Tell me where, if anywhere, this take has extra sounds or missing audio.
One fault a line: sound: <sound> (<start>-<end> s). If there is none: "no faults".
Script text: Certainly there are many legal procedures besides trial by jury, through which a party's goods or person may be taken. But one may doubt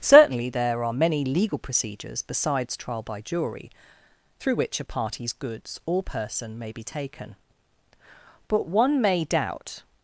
no faults